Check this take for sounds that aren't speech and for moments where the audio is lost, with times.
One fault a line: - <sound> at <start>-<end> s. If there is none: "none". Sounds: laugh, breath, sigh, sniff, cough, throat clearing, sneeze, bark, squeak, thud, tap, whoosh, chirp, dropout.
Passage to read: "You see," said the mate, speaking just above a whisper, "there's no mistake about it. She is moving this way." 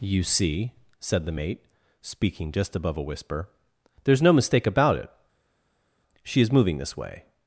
none